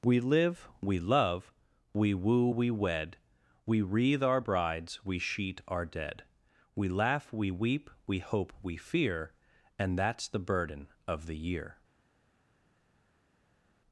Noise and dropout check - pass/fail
pass